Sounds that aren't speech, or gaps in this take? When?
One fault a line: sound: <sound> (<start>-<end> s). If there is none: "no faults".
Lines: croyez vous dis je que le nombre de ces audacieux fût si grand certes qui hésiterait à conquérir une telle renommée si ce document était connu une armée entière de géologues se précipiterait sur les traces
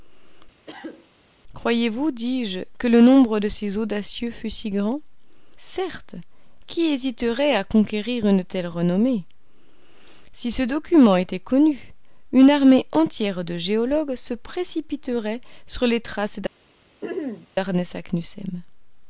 sound: cough (0.7-1.1 s)
sound: throat clearing (17.0-17.5 s)